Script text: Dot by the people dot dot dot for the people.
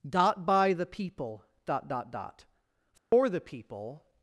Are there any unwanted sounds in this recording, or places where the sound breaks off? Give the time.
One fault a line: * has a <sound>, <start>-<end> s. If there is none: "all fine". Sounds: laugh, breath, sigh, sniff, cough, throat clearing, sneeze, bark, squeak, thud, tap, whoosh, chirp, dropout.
* has a dropout, 3.0-3.1 s